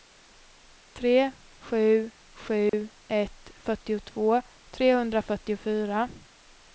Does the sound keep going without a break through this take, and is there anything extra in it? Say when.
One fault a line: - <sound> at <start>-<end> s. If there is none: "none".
- dropout at 2.7-2.7 s